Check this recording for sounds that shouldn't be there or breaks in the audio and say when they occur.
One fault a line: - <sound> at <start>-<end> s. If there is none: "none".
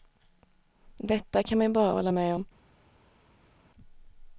none